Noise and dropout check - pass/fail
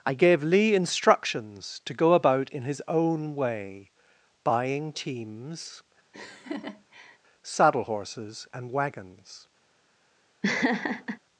fail